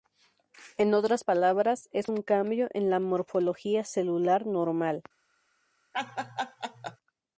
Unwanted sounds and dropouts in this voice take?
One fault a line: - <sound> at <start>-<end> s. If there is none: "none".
- laugh at 5.9-7.0 s